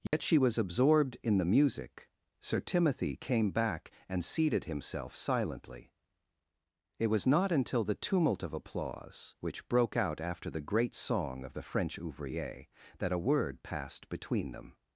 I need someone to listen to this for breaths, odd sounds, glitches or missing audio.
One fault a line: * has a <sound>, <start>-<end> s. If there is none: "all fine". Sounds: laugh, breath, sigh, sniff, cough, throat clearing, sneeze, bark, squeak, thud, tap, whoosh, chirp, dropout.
* has a dropout, 0.1-0.1 s